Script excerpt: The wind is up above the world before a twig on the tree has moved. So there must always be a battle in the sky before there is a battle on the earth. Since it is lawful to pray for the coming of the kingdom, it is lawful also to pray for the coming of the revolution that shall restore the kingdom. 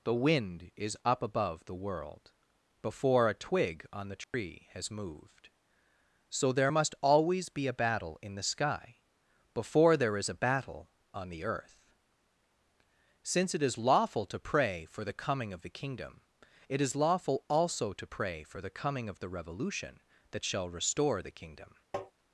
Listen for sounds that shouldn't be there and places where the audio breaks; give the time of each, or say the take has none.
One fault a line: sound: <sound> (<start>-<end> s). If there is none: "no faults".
sound: dropout (4.2-4.3 s)
sound: tap (21.9-22.1 s)